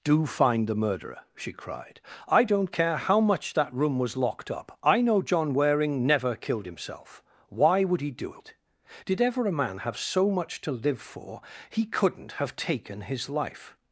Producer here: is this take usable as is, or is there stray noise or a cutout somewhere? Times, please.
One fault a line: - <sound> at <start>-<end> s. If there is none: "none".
none